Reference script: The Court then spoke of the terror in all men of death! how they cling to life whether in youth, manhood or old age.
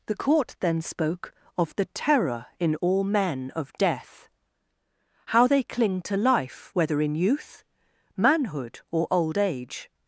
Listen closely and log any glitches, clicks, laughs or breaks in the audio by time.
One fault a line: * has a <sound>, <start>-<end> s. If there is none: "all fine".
all fine